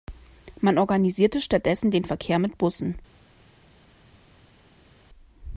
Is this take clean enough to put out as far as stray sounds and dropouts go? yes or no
yes